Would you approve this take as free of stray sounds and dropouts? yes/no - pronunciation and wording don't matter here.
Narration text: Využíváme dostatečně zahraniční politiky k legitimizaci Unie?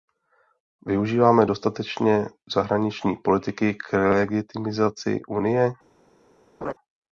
no